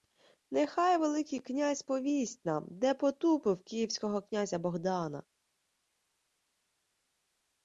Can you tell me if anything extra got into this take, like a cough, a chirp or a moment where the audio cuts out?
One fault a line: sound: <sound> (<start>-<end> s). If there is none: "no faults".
no faults